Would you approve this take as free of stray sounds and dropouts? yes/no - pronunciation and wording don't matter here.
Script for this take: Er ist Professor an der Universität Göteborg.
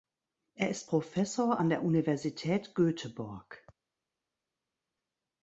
yes